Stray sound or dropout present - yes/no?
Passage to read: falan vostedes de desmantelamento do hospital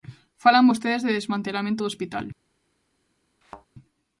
yes